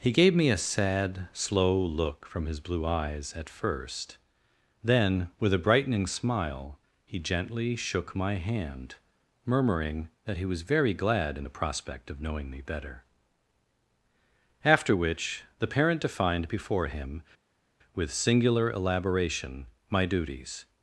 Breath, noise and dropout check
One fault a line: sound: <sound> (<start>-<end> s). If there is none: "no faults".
no faults